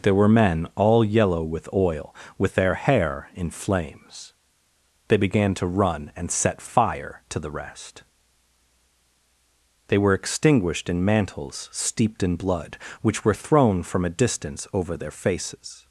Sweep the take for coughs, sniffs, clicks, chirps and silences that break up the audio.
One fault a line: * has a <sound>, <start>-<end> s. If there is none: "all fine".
all fine